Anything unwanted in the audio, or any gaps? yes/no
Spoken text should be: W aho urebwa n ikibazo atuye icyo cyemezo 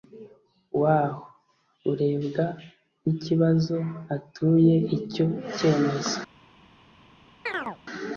yes